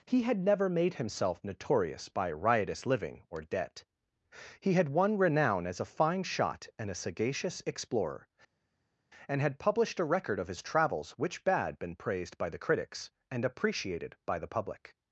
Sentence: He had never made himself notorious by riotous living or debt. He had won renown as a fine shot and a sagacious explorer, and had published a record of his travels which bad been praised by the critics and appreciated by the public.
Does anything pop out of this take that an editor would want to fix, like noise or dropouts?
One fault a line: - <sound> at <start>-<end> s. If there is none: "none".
none